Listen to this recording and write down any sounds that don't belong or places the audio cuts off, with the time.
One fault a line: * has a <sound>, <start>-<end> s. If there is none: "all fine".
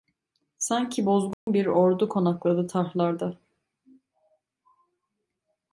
* has a dropout, 1.3-1.5 s